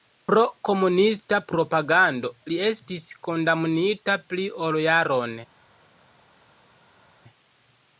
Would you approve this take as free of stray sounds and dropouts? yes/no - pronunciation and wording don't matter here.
yes